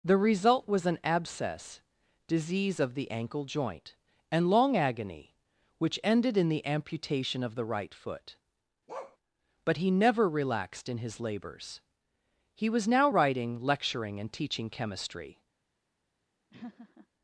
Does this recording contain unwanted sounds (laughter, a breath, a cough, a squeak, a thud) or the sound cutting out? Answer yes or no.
yes